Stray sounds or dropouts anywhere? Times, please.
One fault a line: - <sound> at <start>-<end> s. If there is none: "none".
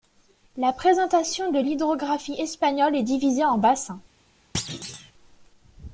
- thud at 4.5-5.1 s